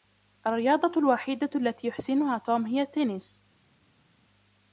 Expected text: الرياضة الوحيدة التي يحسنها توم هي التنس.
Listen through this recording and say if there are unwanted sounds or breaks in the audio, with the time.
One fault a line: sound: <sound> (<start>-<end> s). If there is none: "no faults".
no faults